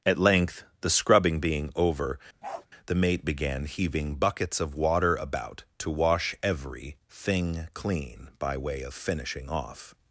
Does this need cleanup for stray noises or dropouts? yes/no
yes